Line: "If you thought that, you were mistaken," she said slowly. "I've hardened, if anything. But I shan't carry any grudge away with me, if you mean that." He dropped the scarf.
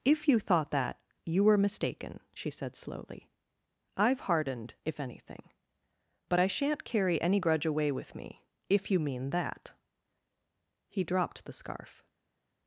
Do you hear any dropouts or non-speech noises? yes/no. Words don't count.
no